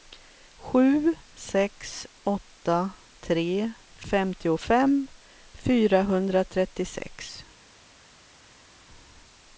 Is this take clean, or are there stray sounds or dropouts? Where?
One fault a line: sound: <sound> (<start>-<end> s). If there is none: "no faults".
no faults